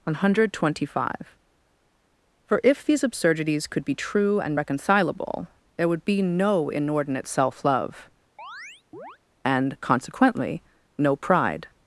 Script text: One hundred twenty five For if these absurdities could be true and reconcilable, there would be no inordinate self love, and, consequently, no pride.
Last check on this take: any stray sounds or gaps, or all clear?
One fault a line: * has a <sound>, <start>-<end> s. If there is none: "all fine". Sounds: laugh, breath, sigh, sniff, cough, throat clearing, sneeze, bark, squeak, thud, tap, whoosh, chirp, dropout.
* has a chirp, 8.4-9.2 s